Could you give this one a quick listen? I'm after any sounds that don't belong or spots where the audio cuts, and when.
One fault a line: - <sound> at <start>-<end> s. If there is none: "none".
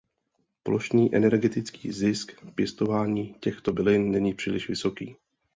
none